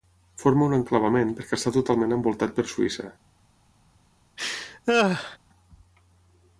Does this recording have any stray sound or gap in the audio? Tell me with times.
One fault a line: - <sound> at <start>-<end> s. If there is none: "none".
- laugh at 4.4-5.4 s